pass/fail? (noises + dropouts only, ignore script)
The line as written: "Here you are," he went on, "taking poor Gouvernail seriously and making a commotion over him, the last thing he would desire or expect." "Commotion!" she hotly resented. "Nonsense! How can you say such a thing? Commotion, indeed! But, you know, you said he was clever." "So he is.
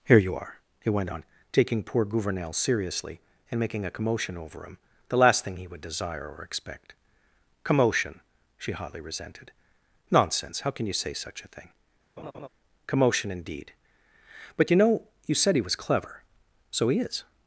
fail